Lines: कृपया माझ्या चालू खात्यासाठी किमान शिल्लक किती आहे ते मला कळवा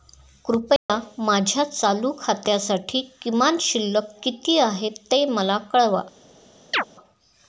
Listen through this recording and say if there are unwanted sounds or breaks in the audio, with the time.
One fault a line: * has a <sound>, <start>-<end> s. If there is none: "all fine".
* has a dropout, 0.8-0.9 s
* has a chirp, 6.7-6.8 s